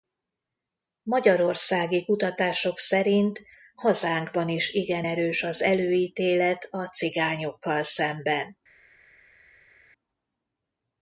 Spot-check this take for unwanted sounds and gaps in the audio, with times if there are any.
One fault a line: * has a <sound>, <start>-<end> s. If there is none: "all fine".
all fine